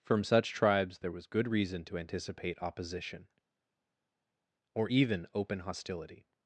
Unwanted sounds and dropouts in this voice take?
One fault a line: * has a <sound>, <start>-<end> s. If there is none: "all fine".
all fine